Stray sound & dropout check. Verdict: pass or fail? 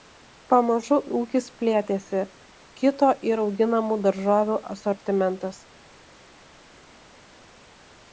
pass